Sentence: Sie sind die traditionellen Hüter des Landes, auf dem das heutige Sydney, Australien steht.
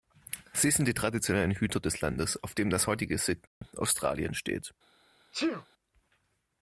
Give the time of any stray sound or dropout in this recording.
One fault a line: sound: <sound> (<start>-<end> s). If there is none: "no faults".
sound: dropout (3.5-3.6 s)
sound: sneeze (5.3-5.7 s)